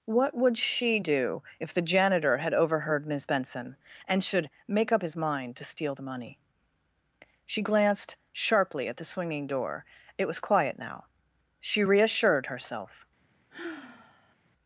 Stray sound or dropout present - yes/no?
yes